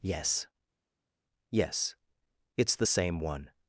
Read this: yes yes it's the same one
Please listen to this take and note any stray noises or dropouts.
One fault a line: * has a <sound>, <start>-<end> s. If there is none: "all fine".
all fine